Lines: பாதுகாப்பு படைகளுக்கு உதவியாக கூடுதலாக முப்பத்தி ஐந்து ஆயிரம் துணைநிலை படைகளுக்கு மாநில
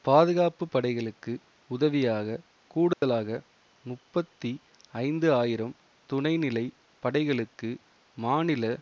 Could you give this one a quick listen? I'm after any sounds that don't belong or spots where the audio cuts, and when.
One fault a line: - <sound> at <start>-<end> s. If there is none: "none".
- dropout at 2.9-3.0 s